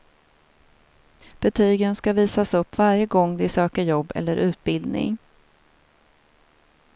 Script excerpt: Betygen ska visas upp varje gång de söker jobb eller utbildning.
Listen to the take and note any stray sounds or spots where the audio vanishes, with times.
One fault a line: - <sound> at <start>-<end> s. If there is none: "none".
none